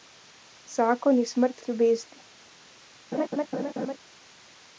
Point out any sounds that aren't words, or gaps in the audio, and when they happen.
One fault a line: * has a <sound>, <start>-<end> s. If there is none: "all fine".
* has a laugh, 3.1-4.0 s